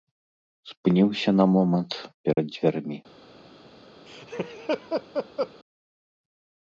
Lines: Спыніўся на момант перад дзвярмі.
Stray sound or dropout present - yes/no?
yes